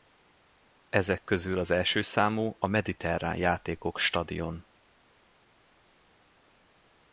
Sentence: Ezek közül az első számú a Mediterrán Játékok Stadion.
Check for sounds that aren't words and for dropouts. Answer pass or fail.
pass